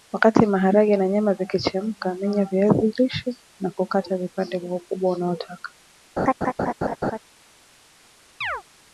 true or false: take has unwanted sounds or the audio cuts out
true